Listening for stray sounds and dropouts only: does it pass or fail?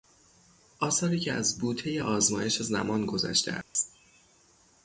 fail